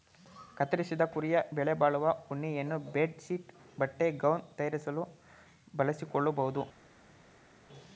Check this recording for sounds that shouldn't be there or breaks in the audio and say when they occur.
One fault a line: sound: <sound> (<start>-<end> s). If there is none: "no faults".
no faults